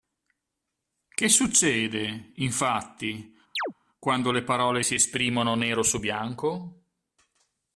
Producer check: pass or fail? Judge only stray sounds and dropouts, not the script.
fail